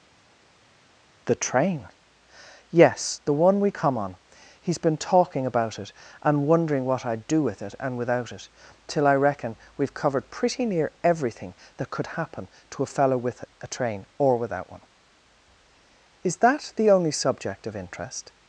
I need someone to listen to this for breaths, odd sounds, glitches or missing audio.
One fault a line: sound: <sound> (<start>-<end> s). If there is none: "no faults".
no faults